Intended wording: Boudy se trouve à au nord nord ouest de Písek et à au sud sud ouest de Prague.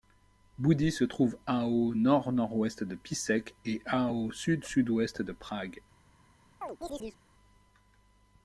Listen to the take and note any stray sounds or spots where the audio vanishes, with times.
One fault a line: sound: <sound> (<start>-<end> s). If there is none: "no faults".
sound: chirp (6.6-7.2 s)